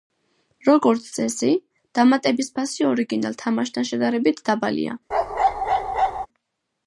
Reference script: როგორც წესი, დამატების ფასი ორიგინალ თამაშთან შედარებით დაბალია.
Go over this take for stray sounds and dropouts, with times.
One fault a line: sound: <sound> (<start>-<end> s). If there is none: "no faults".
sound: bark (5.1-6.3 s)